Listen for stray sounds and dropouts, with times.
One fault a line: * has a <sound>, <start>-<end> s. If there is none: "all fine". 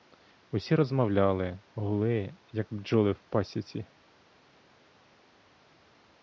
all fine